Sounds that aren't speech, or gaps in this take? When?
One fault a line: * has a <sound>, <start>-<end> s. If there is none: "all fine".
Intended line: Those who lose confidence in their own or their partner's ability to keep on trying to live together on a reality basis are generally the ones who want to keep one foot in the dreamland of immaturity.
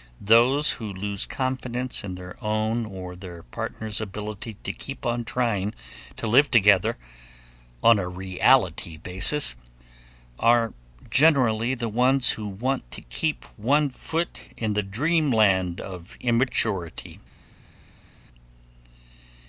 all fine